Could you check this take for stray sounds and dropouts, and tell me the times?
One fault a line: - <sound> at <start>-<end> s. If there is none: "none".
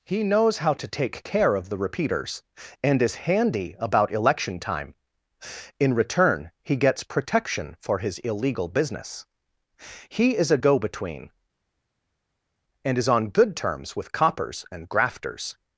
none